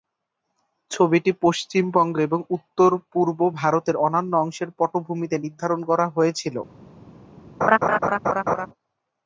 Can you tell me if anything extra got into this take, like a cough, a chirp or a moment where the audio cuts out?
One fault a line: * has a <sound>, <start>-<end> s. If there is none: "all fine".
* has a laugh, 7.6-8.7 s